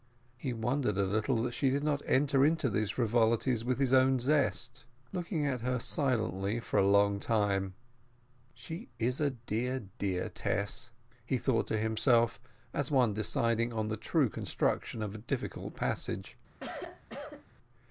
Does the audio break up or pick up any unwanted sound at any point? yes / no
yes